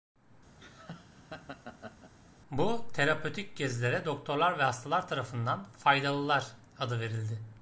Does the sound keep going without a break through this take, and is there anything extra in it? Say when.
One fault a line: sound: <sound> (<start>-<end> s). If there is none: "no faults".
sound: laugh (0.6-2.1 s)